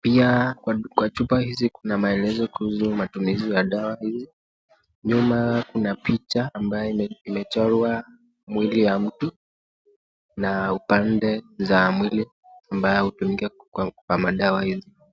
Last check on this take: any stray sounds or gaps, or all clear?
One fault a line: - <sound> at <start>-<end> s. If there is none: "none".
none